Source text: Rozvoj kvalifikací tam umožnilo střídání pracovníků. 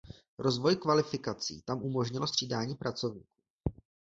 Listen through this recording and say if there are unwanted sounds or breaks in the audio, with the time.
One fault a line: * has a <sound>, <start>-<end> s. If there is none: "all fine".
all fine